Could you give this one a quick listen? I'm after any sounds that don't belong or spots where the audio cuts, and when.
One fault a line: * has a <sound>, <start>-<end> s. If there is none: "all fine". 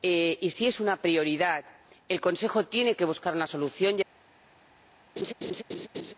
* has a laugh, 5.2-6.1 s